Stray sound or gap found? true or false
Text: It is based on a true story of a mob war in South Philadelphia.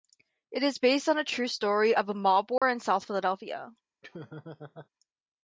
true